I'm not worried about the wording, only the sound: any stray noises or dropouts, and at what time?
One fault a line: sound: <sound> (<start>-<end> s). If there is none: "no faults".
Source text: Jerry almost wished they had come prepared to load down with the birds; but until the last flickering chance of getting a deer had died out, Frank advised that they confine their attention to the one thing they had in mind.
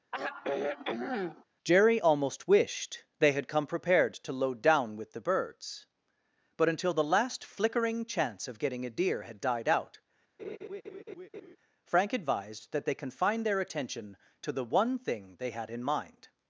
sound: sigh (0.1-1.4 s)
sound: laugh (10.4-11.6 s)